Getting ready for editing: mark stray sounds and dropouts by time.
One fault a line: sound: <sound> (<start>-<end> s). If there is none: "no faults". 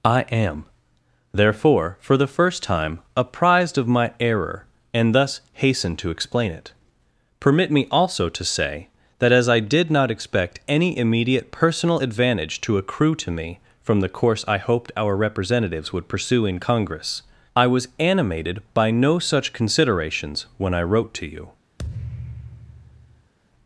sound: thud (21.8-23.3 s)